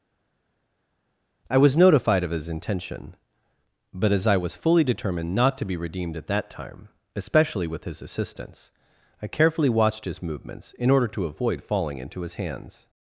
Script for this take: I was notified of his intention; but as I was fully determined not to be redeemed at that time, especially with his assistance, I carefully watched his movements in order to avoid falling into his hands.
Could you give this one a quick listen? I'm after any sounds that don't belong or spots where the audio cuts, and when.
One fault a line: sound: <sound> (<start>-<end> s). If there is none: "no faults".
no faults